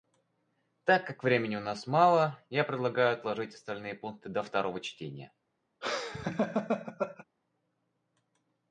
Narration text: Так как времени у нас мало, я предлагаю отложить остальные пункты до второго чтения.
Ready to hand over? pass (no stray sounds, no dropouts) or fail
fail